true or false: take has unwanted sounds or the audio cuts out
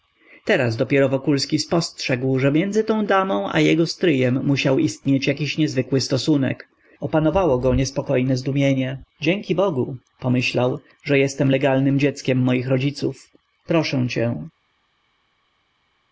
false